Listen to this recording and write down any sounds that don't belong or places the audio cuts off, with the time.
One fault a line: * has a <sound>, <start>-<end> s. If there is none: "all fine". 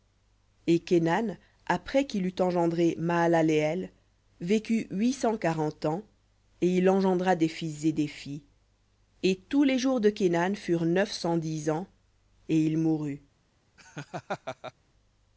* has a laugh, 13.8-14.7 s